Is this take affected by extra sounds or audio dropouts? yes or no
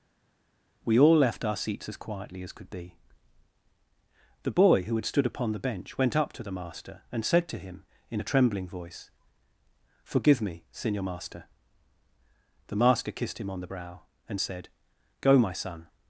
no